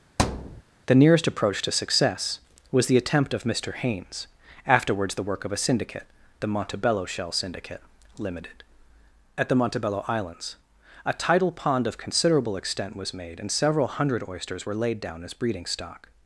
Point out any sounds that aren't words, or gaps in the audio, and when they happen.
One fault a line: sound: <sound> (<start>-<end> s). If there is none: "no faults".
sound: thud (0.2-0.6 s)